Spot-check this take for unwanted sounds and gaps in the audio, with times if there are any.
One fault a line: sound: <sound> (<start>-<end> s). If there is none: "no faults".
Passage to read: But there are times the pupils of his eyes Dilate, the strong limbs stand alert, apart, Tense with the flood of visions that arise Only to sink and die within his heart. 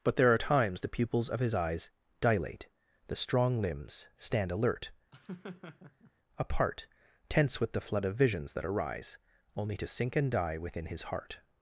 sound: laugh (5.1-6.1 s)